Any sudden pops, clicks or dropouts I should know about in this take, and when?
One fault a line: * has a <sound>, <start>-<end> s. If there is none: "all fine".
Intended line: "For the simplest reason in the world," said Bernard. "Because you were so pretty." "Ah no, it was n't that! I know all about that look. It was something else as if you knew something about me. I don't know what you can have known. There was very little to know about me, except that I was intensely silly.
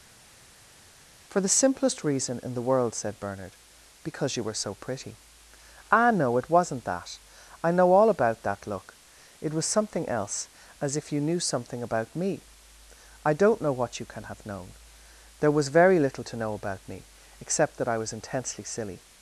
all fine